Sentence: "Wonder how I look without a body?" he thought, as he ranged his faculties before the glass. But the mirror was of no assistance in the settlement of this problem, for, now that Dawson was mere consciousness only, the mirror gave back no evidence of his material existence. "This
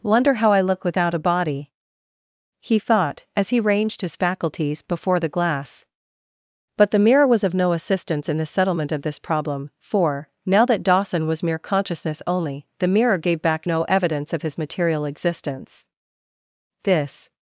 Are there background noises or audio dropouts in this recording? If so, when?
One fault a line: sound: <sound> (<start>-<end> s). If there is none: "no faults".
no faults